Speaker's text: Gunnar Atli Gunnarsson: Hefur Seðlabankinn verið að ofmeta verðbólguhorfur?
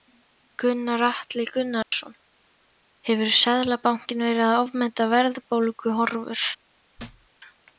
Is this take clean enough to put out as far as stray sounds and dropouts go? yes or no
no